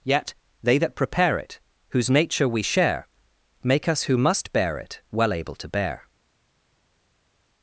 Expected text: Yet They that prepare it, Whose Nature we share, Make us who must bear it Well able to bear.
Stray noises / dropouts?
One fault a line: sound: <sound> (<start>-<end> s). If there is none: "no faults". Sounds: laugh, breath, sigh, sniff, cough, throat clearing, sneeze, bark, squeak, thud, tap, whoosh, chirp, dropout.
no faults